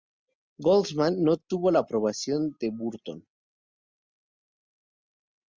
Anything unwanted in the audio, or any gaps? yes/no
no